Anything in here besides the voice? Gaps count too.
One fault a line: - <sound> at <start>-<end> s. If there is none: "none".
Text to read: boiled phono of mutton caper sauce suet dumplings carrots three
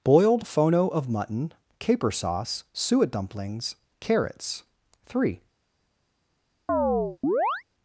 - chirp at 6.7-7.6 s